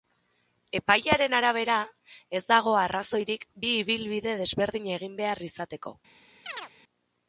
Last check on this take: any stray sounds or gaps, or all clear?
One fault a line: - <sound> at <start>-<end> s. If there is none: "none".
- chirp at 6.5-6.7 s